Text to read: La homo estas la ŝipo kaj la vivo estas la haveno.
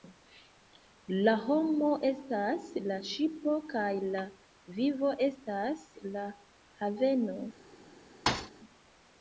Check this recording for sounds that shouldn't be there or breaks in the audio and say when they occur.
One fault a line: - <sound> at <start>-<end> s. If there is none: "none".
- thud at 8.3-8.5 s